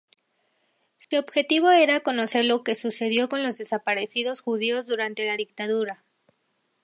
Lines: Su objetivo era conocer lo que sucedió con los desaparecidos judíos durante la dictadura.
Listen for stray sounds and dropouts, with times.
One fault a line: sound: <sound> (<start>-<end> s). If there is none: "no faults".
sound: dropout (1.0-1.1 s)